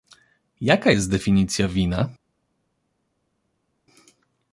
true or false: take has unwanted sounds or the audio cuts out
false